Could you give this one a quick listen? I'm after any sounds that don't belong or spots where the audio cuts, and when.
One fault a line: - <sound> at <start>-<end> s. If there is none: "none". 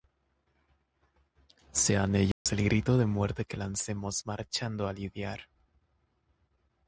- dropout at 2.3-2.5 s